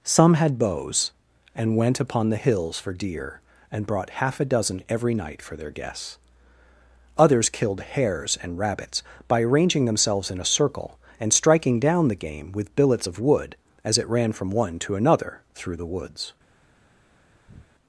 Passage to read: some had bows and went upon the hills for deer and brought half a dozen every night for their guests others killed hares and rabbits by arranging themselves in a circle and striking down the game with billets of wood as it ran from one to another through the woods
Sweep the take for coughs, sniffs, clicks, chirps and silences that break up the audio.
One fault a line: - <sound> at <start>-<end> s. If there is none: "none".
- breath at 17.5-17.7 s